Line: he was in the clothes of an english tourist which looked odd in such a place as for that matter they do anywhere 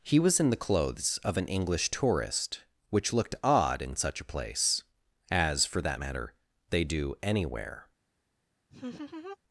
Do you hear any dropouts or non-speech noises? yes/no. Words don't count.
yes